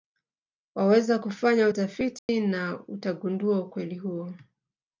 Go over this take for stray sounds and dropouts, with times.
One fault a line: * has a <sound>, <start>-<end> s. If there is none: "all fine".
* has a dropout, 2.2-2.3 s